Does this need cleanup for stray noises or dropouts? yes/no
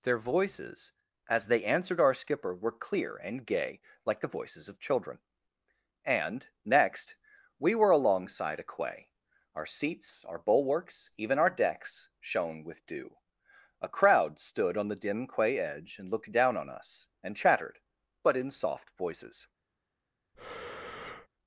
yes